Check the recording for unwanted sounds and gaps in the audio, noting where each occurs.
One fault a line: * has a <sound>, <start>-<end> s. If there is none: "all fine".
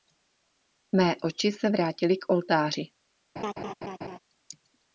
* has a laugh, 3.4-4.2 s